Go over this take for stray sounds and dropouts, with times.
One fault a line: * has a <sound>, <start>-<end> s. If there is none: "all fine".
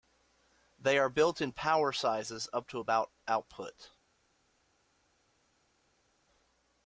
all fine